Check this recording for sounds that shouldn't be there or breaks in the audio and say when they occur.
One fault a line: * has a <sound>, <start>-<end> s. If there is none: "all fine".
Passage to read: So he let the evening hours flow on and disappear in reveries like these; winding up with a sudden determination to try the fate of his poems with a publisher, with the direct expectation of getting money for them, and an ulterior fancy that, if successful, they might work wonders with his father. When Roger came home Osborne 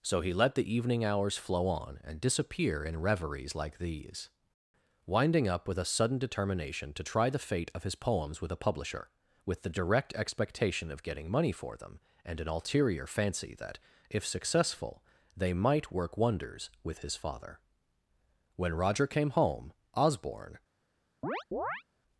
* has a chirp, 21.2-21.8 s